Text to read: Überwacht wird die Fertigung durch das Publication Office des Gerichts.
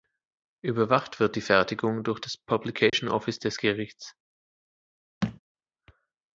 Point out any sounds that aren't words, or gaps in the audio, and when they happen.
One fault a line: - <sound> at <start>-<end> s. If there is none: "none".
- dropout at 2.9-2.9 s
- thud at 5.2-5.4 s